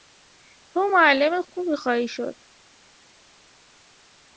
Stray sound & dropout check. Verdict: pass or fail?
pass